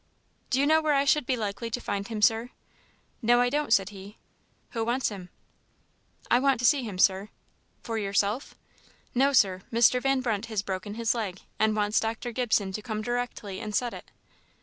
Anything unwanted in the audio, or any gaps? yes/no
no